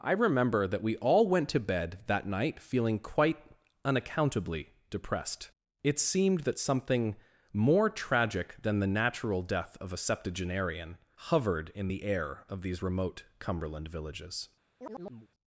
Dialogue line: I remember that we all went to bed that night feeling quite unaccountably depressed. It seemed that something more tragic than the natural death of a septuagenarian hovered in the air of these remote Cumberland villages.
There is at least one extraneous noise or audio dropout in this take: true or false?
true